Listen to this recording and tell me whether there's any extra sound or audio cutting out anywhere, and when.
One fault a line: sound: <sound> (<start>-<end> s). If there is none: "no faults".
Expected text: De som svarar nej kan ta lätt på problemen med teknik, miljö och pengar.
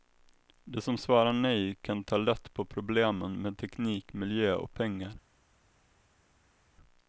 no faults